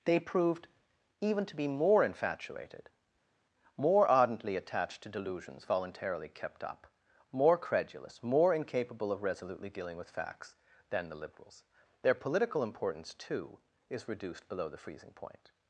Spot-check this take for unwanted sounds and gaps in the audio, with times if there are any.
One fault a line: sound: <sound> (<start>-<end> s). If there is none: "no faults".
no faults